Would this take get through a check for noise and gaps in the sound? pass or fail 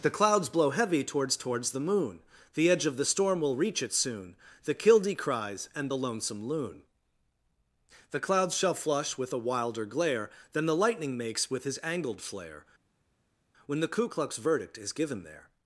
pass